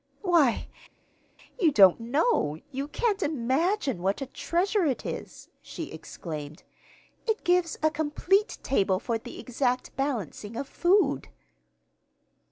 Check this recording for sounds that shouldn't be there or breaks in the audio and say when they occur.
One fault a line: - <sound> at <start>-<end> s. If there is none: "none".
none